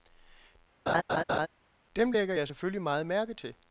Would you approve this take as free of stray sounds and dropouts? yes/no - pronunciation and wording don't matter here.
no